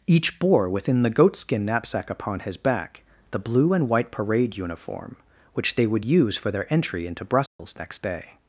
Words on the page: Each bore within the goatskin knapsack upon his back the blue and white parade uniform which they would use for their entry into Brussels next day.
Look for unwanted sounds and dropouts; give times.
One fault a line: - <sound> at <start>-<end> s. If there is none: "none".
- dropout at 7.5-7.6 s